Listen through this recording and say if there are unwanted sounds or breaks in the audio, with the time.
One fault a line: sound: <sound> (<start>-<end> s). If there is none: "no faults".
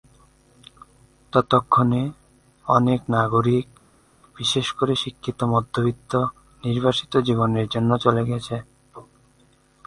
no faults